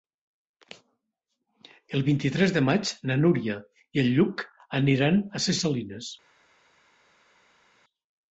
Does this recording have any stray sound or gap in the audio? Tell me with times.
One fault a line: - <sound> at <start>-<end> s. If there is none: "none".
none